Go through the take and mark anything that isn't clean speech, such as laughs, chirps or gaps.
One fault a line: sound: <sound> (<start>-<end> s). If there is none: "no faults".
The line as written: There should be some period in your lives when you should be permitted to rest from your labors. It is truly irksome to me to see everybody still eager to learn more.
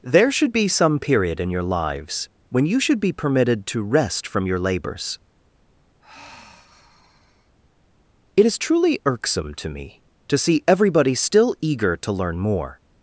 sound: sigh (6.0-7.5 s)